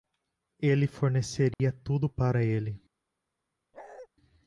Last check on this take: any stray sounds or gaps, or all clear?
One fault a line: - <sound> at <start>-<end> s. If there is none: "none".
- dropout at 1.5-1.6 s
- bark at 3.7-4.1 s